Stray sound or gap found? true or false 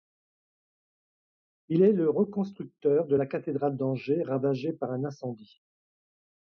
false